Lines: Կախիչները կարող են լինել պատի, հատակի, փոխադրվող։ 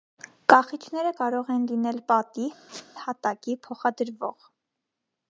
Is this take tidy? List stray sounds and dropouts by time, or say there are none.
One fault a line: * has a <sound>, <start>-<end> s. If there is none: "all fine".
* has a squeak, 2.7-2.9 s